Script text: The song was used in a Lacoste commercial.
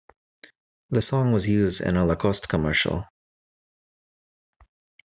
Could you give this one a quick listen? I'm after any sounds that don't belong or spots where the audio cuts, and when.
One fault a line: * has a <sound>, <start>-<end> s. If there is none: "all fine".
all fine